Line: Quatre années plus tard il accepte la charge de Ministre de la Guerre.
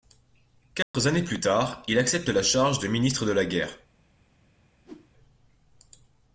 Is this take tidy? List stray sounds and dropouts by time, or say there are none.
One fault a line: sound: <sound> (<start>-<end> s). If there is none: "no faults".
sound: dropout (0.8-0.9 s)
sound: whoosh (4.8-5.1 s)